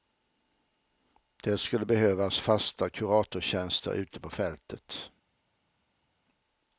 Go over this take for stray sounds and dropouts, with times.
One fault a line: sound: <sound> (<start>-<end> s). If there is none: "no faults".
no faults